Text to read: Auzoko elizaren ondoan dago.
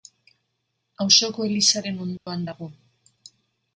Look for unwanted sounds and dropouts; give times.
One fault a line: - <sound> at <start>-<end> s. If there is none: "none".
- dropout at 2.2-2.3 s